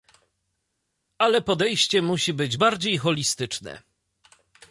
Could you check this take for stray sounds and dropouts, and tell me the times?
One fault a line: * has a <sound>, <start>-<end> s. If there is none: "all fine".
all fine